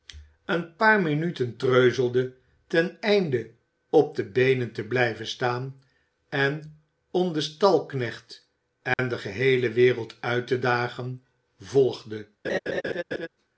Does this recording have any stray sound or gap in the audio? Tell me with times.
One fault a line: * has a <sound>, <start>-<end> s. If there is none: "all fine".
* has a dropout, 8.9-9.0 s
* has a laugh, 12.4-13.3 s